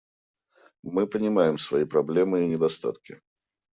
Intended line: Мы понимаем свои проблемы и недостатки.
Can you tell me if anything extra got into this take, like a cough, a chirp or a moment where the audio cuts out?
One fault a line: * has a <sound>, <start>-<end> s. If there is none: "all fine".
all fine